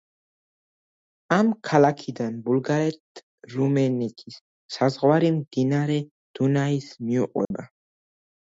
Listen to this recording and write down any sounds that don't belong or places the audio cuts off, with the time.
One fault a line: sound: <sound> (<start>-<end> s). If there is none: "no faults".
sound: dropout (7.4-7.5 s)